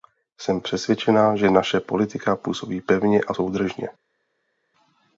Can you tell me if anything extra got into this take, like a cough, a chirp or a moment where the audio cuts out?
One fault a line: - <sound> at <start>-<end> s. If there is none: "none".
none